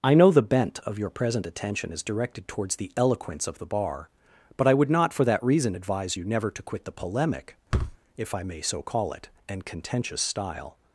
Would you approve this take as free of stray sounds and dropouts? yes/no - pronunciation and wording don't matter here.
no